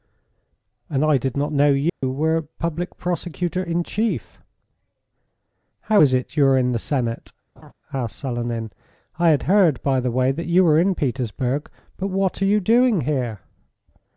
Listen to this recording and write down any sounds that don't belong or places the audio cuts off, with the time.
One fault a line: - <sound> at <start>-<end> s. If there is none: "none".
- dropout at 1.9-2.0 s
- laugh at 7.6-7.7 s